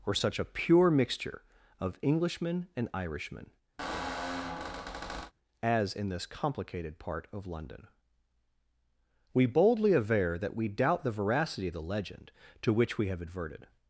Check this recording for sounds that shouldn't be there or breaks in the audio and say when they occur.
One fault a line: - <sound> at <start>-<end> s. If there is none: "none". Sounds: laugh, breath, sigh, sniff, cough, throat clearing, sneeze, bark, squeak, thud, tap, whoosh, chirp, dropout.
- squeak at 3.8-5.3 s